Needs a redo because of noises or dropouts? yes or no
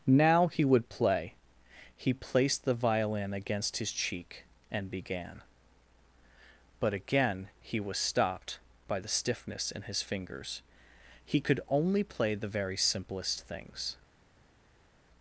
no